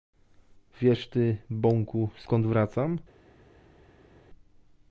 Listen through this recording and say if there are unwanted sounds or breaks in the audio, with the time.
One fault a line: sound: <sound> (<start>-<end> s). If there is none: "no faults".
no faults